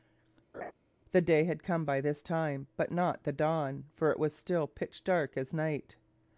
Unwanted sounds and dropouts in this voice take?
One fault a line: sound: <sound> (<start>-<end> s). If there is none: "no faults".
sound: laugh (0.5-0.7 s)